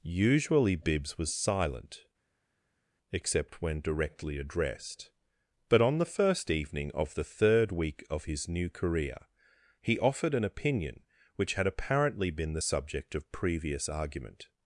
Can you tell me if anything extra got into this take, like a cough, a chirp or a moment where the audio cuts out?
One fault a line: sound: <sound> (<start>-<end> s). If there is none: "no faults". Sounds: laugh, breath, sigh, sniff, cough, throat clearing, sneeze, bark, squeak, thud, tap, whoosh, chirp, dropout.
no faults